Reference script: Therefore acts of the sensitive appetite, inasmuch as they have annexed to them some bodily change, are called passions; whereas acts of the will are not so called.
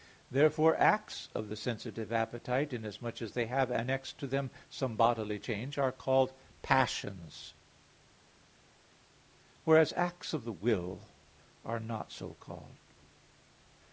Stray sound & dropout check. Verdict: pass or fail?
pass